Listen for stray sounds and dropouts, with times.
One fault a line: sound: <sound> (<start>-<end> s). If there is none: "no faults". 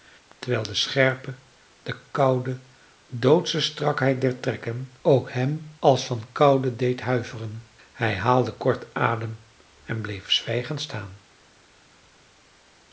no faults